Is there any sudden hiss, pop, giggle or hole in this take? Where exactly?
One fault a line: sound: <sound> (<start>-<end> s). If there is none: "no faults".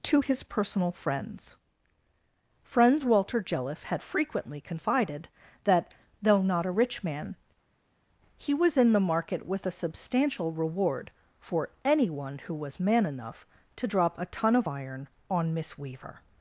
no faults